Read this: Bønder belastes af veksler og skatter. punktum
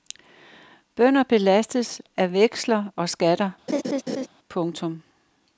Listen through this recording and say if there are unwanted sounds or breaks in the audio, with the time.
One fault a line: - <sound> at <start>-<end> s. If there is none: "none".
- laugh at 3.7-4.3 s